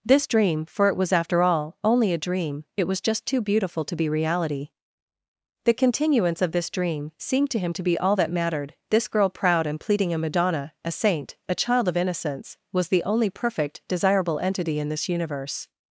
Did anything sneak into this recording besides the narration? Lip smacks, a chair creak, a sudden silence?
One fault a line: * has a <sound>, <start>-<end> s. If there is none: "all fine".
all fine